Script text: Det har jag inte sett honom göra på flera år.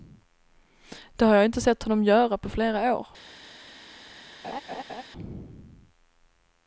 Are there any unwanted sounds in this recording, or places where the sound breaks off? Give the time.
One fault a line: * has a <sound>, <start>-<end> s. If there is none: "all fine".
* has a laugh, 4.4-5.0 s